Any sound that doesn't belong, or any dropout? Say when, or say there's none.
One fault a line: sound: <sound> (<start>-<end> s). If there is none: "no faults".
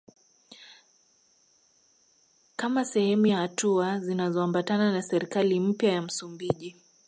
no faults